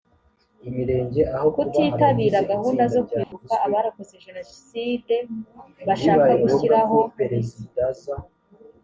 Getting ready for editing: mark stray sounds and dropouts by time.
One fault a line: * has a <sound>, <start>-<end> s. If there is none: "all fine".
* has a dropout, 3.2-3.3 s